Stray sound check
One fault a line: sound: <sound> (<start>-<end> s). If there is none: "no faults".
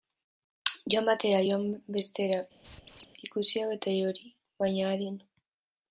sound: squeak (2.6-3.1 s)